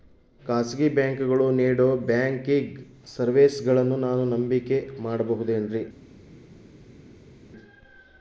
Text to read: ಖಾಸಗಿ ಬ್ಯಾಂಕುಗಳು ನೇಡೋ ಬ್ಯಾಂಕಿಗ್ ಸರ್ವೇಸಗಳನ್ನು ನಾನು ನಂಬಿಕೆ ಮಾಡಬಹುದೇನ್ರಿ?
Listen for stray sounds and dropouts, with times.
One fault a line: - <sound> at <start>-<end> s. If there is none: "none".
none